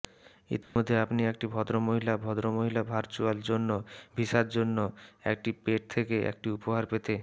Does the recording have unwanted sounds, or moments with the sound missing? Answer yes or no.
yes